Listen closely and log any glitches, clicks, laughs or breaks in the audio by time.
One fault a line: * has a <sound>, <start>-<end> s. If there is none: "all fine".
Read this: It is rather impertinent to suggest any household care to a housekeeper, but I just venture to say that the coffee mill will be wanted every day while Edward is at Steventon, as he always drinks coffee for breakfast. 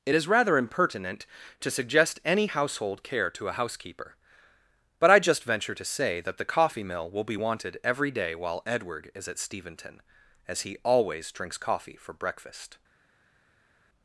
all fine